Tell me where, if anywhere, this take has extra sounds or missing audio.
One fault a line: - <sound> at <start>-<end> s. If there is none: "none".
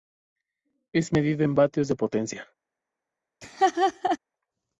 - laugh at 3.4-4.2 s